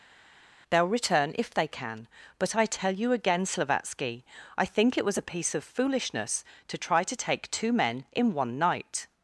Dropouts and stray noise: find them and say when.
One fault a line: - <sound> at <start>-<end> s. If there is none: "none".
none